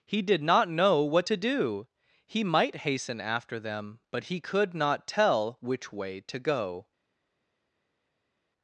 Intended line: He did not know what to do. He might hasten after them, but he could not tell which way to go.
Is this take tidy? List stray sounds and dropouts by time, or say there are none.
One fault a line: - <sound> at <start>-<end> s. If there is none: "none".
none